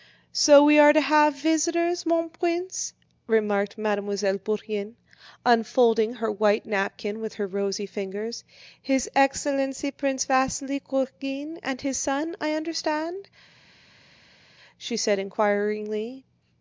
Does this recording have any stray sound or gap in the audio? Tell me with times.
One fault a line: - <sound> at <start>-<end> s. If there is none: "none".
none